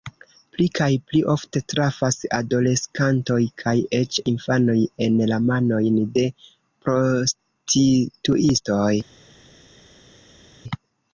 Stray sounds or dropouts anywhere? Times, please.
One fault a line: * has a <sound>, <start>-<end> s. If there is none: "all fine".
all fine